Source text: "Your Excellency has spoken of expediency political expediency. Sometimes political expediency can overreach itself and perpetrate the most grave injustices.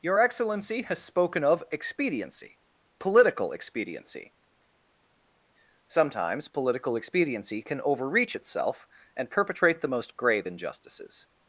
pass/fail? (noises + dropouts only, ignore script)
pass